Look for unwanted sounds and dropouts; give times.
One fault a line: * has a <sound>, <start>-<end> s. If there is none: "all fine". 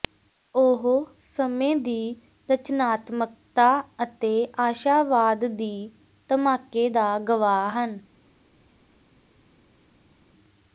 all fine